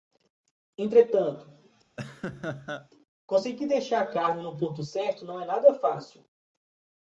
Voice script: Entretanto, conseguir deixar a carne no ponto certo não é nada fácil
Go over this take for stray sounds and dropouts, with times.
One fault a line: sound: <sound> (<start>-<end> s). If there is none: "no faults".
sound: laugh (2.0-2.9 s)